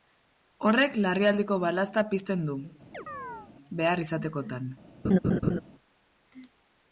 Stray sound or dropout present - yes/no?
yes